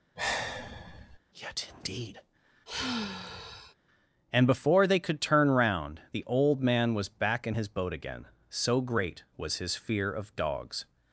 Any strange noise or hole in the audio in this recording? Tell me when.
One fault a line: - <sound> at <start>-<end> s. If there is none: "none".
- sigh at 0.2-1.2 s
- sigh at 2.7-3.7 s